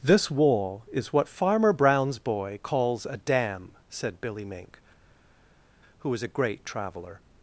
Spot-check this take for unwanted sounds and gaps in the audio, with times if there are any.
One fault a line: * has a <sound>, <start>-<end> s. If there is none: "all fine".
all fine